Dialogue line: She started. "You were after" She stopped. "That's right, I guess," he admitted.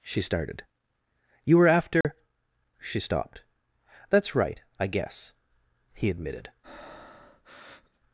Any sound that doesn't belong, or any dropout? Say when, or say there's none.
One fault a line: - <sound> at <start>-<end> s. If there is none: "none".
- dropout at 2.0-2.0 s
- breath at 6.6-8.0 s